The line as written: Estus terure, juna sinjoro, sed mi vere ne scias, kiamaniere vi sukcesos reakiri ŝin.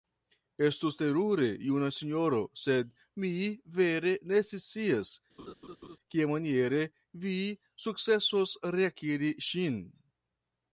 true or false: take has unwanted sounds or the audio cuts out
true